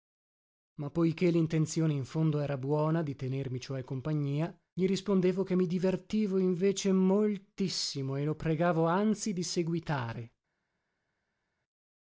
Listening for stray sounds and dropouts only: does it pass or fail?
pass